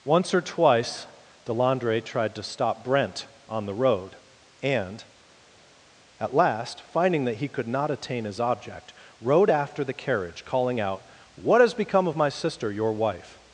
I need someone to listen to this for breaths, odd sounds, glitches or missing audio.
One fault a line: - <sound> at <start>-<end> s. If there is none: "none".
none